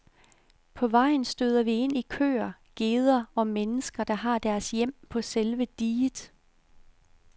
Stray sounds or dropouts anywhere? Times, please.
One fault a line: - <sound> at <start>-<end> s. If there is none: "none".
none